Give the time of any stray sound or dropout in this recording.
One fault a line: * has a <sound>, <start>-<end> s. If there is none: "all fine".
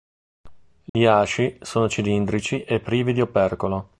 * has a dropout, 0.9-0.9 s